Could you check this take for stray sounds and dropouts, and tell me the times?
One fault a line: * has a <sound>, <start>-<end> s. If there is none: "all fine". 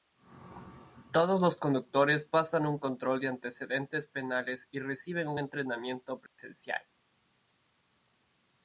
* has a dropout, 6.3-6.4 s